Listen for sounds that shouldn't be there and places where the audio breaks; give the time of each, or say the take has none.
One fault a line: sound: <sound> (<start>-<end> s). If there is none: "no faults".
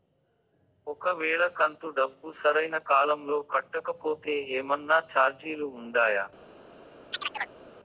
sound: chirp (7.1-7.6 s)